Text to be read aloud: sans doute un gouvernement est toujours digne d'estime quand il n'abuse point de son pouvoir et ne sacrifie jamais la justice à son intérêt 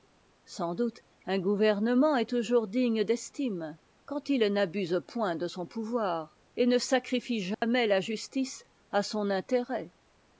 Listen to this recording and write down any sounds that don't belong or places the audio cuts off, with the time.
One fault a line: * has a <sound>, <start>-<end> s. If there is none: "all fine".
* has a dropout, 7.5-7.6 s